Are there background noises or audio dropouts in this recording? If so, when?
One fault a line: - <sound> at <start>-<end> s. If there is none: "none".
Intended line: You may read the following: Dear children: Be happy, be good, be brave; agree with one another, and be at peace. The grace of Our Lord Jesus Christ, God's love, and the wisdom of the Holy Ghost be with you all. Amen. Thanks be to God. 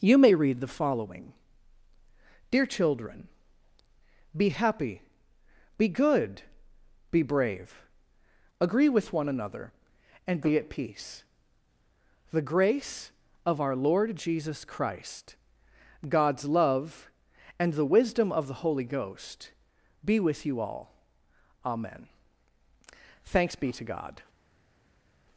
none